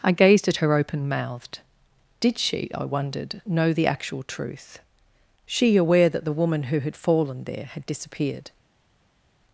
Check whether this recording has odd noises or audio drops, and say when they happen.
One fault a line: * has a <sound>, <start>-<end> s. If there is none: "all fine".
all fine